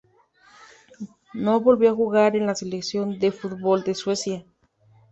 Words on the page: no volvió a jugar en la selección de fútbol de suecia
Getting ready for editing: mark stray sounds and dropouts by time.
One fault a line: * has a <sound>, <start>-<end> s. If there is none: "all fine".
all fine